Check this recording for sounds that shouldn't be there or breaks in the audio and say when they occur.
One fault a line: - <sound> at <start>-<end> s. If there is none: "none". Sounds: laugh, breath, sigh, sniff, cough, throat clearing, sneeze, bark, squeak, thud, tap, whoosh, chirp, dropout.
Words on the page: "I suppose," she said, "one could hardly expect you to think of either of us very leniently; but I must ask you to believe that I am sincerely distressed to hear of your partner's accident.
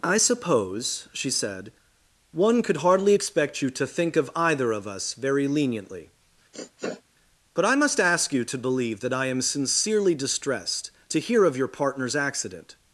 - sniff at 6.5-7.0 s